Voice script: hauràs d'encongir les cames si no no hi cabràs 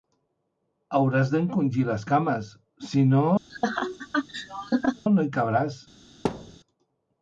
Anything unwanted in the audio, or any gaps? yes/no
yes